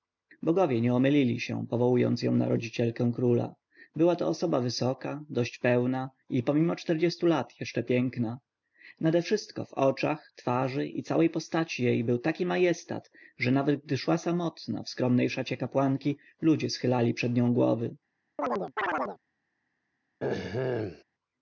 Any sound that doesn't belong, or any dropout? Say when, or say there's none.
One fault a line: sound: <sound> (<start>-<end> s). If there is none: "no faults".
sound: chirp (18.4-19.2 s)
sound: throat clearing (20.2-21.0 s)